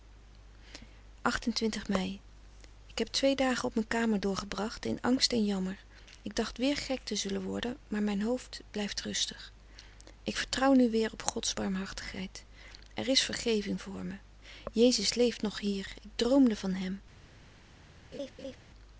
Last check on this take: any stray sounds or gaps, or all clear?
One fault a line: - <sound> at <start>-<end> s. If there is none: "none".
- laugh at 18.1-18.6 s